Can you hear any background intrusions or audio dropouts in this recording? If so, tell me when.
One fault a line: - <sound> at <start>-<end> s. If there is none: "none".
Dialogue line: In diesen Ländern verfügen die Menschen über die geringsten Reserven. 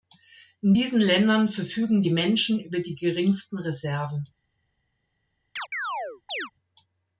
- chirp at 5.6-6.5 s